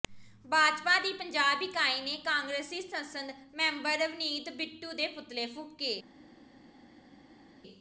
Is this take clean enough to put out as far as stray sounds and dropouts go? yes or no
yes